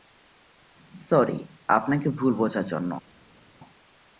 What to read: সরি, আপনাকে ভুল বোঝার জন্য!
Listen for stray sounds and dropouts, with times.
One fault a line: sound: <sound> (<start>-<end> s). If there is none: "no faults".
no faults